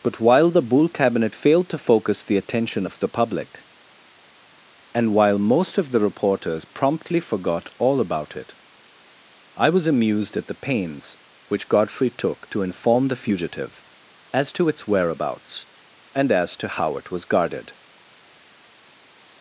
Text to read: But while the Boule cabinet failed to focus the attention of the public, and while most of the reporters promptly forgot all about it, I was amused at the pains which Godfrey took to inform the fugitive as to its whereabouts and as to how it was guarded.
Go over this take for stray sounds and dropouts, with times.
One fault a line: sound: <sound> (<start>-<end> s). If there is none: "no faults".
no faults